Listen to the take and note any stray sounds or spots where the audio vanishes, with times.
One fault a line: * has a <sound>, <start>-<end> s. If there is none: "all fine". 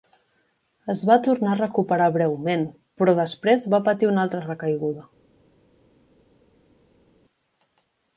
all fine